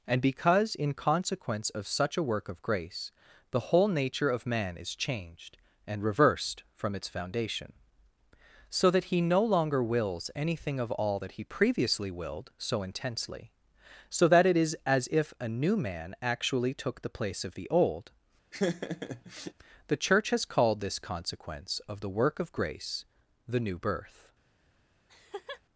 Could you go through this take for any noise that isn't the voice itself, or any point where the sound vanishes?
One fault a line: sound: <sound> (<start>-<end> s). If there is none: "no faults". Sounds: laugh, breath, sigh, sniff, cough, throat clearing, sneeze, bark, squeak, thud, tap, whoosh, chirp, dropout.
sound: laugh (18.5-19.5 s)
sound: laugh (25.1-25.6 s)